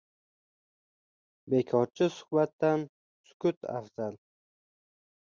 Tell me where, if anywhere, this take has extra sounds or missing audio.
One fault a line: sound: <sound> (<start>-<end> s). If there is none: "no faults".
no faults